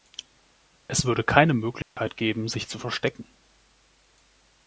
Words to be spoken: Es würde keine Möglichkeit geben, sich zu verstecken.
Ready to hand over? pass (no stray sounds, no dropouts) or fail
fail